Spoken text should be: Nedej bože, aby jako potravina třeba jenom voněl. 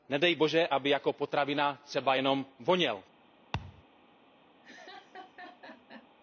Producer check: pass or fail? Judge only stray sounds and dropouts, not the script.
fail